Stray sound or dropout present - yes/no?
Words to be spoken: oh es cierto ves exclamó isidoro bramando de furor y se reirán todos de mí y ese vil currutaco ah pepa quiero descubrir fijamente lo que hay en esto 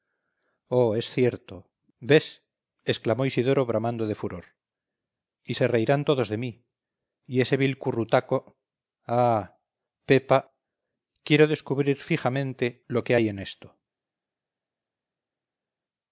no